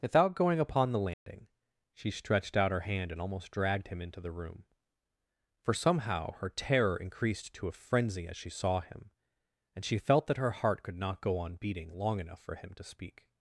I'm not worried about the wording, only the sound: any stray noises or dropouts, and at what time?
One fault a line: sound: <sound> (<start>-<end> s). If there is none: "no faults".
sound: dropout (1.1-1.3 s)